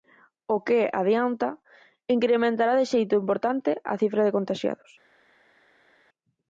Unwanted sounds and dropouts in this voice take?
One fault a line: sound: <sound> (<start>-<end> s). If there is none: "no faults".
no faults